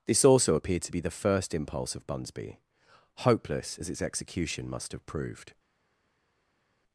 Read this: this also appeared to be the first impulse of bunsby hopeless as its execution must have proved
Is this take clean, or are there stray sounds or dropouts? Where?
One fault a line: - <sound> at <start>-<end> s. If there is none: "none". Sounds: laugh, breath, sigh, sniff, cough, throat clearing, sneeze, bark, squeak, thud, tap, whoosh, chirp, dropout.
none